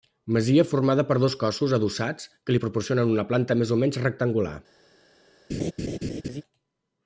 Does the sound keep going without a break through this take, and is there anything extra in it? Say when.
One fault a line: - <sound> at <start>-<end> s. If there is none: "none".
- laugh at 5.5-6.4 s